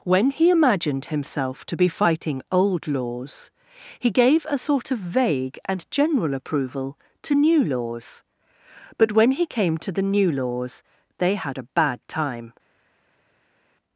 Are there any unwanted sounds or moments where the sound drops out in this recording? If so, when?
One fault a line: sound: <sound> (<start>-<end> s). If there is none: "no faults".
no faults